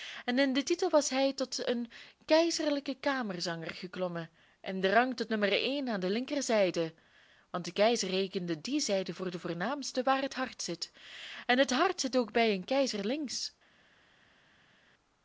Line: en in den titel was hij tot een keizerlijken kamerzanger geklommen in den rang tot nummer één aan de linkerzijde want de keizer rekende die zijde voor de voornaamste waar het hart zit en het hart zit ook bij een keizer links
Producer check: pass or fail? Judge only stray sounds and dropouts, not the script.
pass